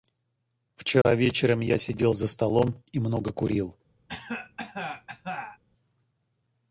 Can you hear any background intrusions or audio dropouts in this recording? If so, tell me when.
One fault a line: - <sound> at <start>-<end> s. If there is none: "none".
- dropout at 1.0-1.1 s
- cough at 4.1-5.6 s